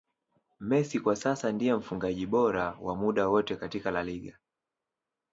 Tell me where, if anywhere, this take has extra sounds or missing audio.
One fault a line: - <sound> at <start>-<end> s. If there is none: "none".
none